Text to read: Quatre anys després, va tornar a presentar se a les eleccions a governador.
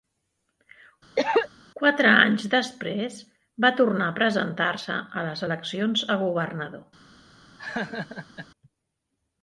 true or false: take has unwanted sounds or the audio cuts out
true